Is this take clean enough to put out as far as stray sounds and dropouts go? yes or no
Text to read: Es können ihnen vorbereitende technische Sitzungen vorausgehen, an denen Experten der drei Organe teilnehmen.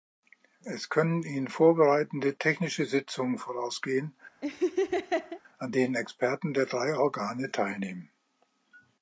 no